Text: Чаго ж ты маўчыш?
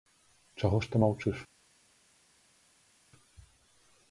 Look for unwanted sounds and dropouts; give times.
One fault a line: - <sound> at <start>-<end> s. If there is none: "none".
none